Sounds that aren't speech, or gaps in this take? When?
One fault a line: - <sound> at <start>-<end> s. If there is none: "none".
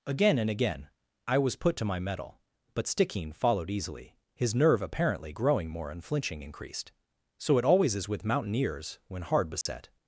- dropout at 9.6-9.7 s